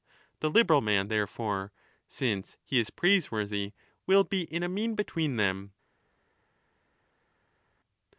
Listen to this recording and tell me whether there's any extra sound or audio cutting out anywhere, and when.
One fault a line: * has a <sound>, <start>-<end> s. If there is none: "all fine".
all fine